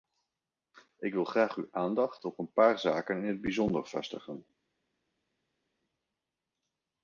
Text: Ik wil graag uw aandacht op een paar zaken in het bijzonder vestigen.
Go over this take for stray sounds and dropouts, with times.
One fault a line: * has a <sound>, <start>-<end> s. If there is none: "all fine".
all fine